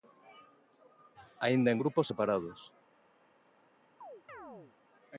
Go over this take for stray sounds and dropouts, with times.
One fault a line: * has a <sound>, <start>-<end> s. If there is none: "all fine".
* has a chirp, 4.0-4.8 s